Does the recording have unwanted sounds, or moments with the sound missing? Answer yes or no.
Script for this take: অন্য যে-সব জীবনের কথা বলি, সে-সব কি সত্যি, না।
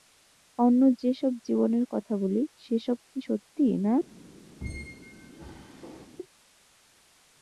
yes